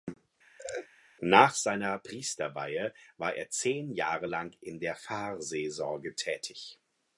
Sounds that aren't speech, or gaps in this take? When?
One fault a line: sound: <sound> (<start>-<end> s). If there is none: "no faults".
sound: laugh (0.6-0.9 s)